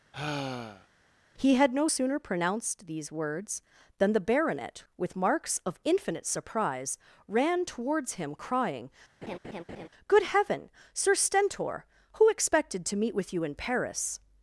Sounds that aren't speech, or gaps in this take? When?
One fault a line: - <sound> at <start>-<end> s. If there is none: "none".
- sigh at 0.1-0.9 s
- laugh at 9.2-9.9 s